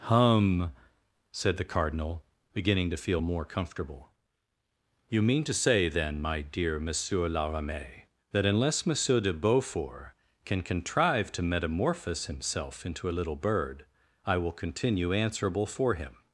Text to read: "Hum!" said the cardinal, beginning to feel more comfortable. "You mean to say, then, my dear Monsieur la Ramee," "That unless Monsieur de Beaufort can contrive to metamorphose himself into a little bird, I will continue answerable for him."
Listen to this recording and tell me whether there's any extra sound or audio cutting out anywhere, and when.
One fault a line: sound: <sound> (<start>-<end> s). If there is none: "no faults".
no faults